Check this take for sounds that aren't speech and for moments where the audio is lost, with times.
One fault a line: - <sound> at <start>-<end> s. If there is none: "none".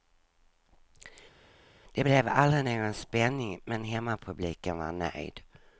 none